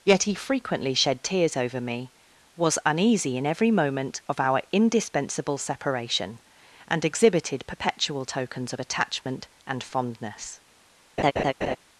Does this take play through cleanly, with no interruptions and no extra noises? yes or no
no